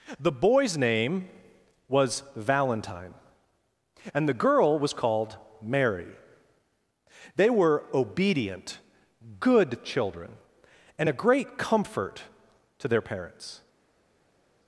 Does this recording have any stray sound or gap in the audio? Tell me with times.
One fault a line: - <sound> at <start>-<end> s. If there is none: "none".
none